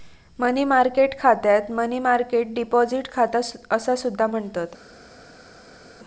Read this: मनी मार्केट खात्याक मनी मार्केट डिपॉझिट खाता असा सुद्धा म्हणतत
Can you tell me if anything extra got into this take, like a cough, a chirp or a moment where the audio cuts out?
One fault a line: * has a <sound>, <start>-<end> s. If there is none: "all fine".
all fine